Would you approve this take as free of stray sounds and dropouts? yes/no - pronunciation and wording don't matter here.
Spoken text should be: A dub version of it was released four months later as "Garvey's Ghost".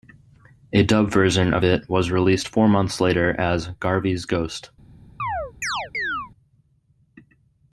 no